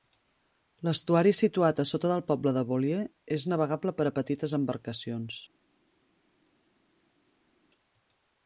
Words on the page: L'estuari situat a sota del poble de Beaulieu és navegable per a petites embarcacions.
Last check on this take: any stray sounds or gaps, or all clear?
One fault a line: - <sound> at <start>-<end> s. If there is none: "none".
none